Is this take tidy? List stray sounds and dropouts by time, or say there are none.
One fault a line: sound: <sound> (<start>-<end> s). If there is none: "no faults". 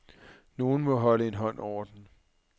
no faults